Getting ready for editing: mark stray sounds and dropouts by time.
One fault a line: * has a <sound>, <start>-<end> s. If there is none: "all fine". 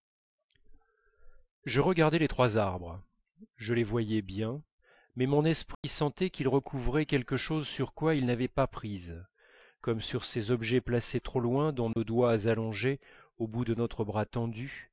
* has a dropout, 5.7-5.8 s
* has a dropout, 11.9-12.0 s